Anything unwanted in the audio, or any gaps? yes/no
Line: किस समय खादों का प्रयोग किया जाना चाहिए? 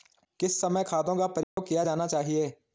yes